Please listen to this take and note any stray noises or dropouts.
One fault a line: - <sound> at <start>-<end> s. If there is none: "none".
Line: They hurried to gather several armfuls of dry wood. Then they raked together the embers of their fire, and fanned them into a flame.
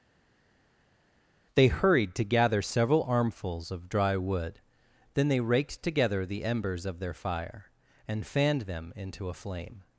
none